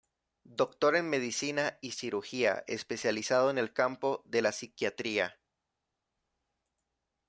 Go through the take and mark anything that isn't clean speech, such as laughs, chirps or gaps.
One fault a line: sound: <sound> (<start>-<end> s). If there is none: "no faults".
no faults